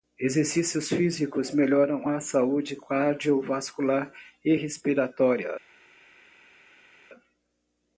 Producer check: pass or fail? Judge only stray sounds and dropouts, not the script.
pass